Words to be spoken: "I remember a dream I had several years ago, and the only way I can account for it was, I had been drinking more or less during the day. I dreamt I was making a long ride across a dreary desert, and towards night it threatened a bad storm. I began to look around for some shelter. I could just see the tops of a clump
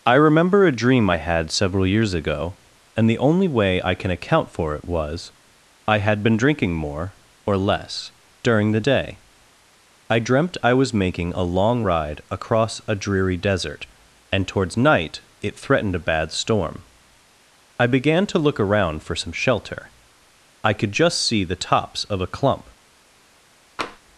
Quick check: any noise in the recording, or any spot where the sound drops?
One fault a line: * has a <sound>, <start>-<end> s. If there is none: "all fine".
* has a tap, 23.8-24.0 s